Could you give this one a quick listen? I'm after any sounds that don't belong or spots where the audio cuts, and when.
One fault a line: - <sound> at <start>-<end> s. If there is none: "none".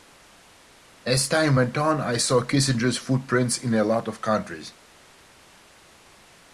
none